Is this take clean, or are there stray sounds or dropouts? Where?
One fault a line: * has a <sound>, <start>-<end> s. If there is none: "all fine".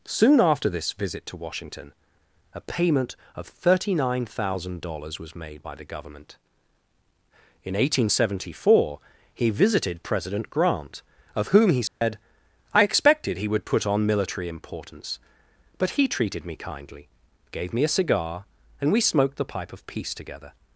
* has a dropout, 11.9-12.0 s